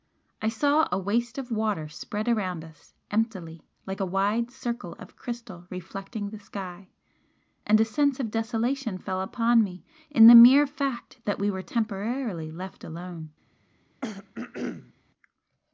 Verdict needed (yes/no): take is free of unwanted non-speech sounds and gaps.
no